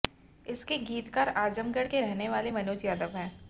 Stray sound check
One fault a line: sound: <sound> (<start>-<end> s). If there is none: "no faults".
no faults